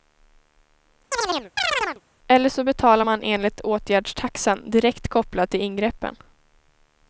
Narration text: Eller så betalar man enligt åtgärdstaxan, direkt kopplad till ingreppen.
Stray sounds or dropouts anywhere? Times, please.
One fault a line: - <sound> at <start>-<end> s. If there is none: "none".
- chirp at 1.1-2.0 s